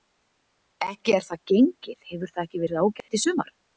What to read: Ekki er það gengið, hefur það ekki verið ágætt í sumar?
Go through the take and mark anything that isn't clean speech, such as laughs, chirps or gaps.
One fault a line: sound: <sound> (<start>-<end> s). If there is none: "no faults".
sound: dropout (3.0-3.1 s)